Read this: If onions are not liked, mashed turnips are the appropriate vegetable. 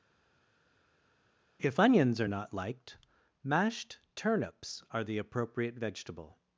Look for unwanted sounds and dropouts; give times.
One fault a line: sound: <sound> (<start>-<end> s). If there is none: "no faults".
no faults